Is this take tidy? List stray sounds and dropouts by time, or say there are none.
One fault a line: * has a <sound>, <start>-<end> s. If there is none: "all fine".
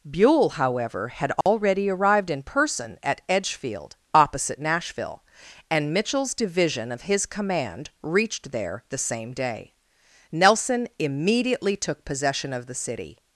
* has a dropout, 1.4-1.5 s